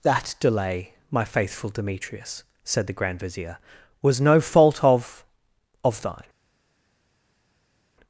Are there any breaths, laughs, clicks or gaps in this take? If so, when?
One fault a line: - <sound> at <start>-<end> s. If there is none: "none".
none